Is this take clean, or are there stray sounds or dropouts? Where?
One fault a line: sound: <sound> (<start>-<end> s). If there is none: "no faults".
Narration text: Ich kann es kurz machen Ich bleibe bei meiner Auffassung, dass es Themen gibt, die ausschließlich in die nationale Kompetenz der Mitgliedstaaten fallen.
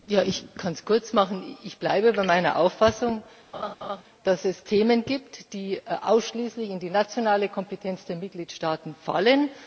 sound: laugh (3.5-4.0 s)